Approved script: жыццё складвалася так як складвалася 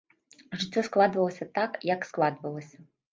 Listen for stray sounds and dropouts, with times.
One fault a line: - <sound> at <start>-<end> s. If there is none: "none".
none